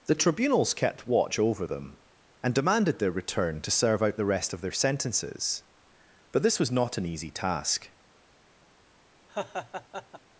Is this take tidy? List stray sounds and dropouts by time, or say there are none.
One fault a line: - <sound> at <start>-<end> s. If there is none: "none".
- laugh at 9.3-10.2 s